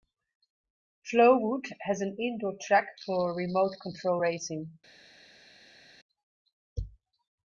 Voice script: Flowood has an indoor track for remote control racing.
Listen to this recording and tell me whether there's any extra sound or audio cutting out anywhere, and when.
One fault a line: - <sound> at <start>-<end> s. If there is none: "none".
none